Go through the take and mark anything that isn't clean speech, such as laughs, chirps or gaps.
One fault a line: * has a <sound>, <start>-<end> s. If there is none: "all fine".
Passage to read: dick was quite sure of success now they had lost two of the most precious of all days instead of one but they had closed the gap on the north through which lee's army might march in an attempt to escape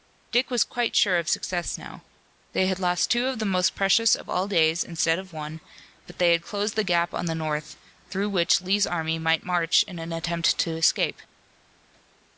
all fine